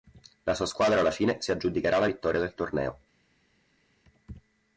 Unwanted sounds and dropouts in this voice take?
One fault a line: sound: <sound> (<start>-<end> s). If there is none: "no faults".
no faults